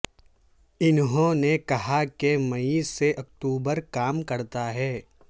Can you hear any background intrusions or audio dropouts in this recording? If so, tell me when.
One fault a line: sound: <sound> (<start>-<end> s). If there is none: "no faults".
no faults